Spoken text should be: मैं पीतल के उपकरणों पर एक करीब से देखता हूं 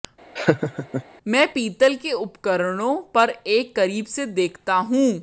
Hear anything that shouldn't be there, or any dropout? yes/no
yes